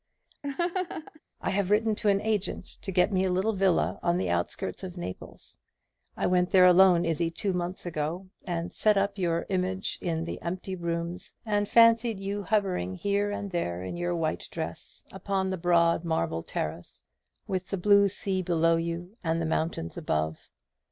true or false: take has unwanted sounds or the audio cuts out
true